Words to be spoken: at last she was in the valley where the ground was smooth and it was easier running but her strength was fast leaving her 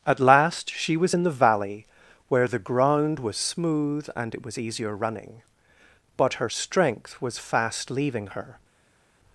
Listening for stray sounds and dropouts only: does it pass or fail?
pass